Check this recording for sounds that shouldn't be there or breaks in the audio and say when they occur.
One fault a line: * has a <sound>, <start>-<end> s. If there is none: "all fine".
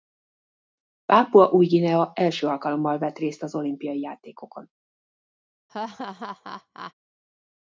* has a laugh, 5.7-6.9 s